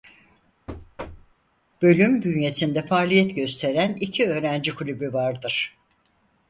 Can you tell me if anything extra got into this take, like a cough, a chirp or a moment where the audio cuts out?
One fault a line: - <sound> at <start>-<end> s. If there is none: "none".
- thud at 0.7-1.4 s